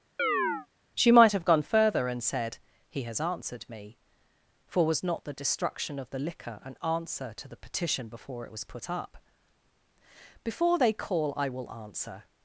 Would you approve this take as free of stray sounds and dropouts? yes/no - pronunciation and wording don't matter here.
no